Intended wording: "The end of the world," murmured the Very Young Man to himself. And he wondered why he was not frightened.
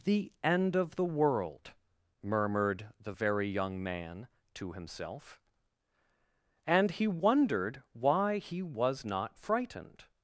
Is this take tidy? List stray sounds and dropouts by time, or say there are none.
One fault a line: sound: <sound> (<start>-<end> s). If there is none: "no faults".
no faults